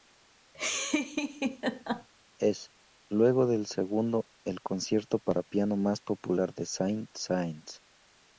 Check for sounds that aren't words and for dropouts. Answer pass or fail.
fail